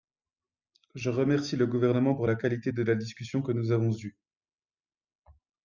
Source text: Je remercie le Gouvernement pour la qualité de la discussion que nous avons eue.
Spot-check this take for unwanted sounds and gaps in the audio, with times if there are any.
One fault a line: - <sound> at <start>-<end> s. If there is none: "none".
none